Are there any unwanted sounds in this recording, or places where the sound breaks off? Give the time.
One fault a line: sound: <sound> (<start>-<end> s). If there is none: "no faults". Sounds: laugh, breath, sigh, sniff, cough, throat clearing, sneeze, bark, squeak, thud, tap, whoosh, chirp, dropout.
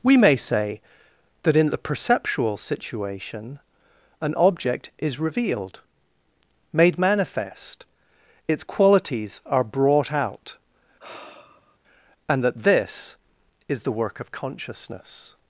sound: sigh (11.0-11.8 s)